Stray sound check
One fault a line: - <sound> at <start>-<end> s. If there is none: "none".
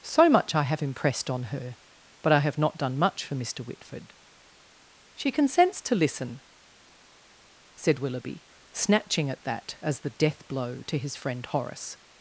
none